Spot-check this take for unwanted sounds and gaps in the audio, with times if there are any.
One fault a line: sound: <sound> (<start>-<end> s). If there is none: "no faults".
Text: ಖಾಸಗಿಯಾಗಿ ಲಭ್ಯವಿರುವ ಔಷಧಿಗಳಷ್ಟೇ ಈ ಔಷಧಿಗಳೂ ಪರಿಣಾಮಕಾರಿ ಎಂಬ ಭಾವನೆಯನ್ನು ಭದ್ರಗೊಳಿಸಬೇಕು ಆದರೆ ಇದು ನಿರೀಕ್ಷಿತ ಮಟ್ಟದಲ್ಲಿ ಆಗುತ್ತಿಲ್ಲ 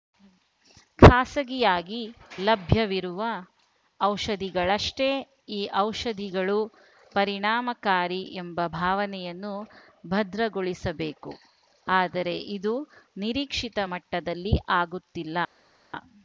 no faults